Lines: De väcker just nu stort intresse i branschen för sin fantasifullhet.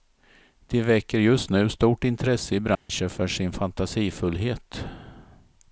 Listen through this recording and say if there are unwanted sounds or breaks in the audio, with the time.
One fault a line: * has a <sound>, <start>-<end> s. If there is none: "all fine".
* has a dropout, 2.7-2.9 s